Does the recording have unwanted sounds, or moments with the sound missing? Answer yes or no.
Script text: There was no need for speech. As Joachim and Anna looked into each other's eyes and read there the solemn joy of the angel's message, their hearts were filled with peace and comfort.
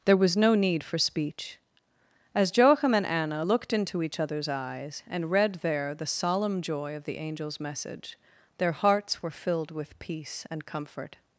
no